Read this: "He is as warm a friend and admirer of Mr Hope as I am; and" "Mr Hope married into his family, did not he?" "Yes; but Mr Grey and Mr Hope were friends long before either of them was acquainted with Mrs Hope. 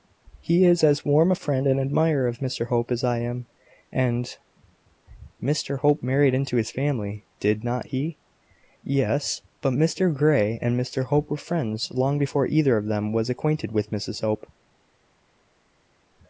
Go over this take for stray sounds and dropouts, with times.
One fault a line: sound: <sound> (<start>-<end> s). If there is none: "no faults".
no faults